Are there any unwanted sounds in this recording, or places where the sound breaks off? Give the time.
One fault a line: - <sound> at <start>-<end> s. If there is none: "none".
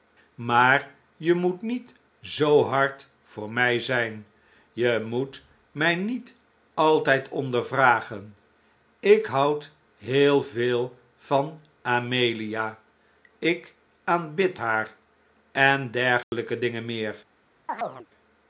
- dropout at 16.2-16.3 s
- chirp at 17.7-18.1 s